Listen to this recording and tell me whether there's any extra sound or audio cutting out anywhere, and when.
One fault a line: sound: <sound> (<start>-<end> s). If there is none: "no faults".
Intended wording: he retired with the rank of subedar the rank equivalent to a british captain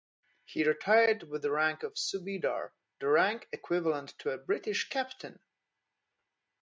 no faults